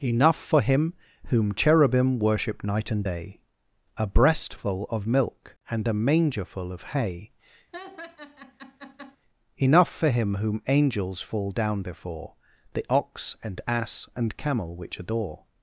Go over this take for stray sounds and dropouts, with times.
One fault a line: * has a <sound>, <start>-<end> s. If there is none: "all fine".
* has a laugh, 7.7-9.2 s